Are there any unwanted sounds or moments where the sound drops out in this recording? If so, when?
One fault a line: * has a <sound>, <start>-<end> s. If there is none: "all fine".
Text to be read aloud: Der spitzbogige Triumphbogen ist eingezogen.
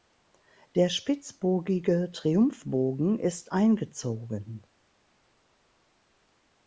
all fine